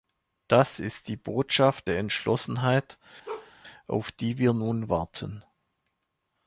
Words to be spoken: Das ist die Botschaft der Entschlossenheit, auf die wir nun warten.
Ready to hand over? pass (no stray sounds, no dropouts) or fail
fail